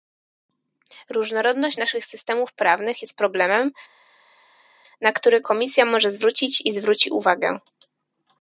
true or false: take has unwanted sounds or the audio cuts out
false